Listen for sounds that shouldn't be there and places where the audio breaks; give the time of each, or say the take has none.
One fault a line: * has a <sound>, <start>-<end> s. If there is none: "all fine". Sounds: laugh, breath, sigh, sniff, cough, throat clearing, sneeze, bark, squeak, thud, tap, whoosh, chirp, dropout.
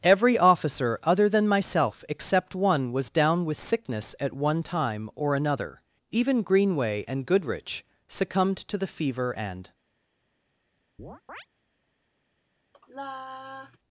* has a chirp, 11.0-11.5 s
* has a sigh, 12.7-13.8 s